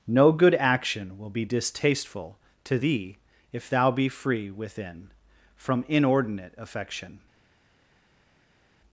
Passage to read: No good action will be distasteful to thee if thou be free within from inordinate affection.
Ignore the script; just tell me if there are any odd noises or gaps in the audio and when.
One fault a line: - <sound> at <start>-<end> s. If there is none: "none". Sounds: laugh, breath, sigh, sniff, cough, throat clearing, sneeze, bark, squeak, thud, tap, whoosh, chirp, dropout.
none